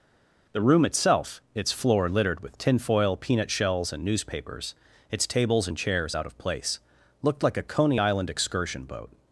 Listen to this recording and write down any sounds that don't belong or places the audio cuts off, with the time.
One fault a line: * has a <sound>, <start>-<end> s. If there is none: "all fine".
all fine